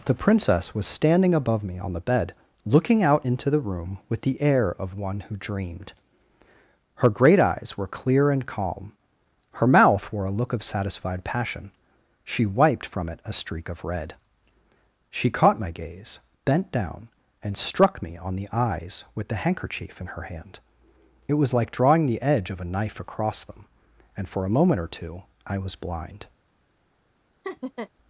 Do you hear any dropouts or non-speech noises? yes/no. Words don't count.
yes